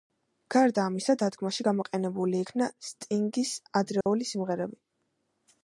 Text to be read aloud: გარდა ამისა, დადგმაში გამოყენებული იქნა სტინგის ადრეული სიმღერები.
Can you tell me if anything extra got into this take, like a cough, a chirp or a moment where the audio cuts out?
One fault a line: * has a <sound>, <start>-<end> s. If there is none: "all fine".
* has a dropout, 4.0-4.1 s